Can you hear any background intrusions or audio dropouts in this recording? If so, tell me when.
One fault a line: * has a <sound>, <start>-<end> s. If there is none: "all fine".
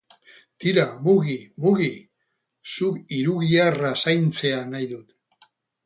all fine